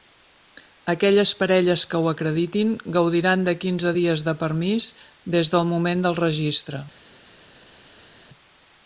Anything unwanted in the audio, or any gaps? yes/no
no